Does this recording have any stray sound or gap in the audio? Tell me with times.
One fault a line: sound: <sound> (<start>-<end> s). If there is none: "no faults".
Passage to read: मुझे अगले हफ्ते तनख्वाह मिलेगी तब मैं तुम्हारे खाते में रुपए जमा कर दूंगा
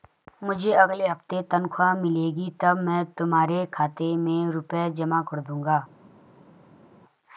no faults